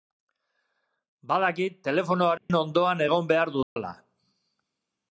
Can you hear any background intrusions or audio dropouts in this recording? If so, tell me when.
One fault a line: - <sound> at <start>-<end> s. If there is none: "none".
- dropout at 2.4-2.5 s
- dropout at 3.6-3.8 s